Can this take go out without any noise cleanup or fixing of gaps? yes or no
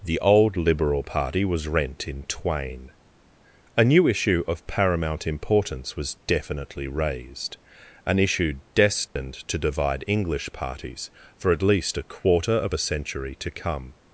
no